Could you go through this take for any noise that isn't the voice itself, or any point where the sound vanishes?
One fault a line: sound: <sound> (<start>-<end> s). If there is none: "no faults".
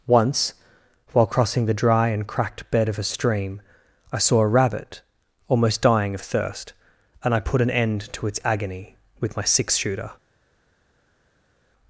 no faults